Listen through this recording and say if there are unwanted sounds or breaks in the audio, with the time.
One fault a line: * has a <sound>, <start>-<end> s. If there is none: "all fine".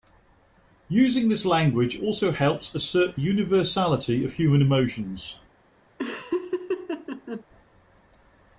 * has a laugh, 6.0-7.4 s